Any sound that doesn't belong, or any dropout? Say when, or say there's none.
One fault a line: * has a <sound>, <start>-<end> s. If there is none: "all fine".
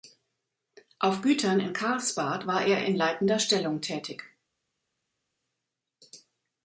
all fine